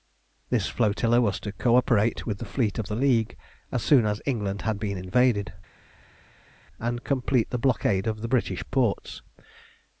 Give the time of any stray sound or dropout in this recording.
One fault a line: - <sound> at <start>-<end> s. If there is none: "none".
none